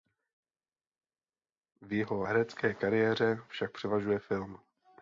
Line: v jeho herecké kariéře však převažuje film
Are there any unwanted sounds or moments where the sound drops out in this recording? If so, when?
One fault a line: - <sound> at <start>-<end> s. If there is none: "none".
none